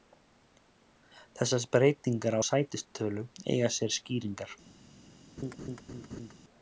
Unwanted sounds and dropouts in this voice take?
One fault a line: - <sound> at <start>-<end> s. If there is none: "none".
- laugh at 5.4-6.3 s